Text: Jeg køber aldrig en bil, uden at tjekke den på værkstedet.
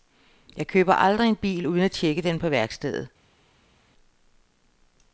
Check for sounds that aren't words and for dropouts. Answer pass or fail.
pass